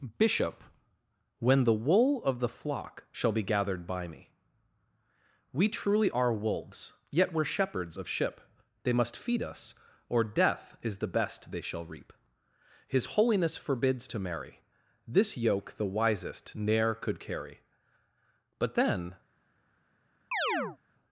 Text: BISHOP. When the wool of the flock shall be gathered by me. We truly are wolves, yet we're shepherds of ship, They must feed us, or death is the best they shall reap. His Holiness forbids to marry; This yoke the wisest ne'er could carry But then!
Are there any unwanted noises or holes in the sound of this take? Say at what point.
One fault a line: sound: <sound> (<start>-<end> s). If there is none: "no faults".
sound: chirp (20.3-20.8 s)